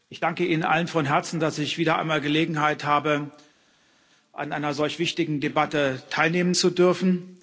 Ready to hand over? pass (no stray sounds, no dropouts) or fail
pass